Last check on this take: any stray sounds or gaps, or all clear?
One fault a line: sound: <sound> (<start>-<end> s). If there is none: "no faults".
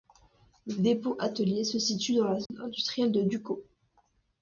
sound: dropout (2.5-2.5 s)